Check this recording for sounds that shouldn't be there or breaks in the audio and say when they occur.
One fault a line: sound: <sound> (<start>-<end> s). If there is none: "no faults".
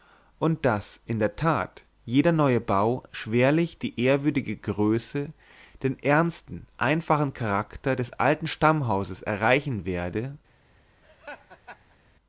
sound: laugh (11.0-12.0 s)